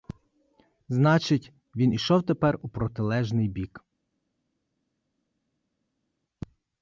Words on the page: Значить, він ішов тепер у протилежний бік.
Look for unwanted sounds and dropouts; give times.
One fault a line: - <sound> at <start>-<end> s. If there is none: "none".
none